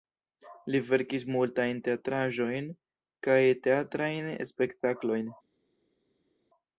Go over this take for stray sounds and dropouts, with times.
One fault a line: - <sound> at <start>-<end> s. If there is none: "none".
none